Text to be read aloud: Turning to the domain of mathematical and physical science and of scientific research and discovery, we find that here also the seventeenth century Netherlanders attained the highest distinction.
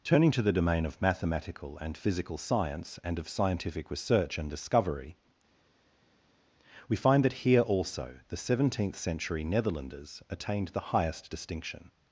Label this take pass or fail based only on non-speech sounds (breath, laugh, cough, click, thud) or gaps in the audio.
pass